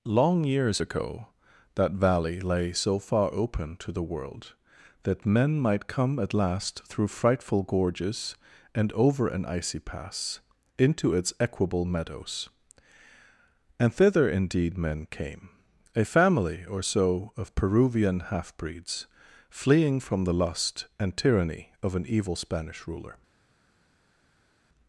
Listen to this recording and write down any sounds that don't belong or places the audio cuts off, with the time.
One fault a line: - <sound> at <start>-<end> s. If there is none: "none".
none